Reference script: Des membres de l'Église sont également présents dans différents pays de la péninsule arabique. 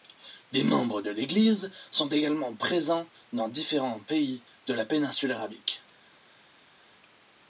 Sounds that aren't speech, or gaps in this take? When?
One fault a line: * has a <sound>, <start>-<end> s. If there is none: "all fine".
all fine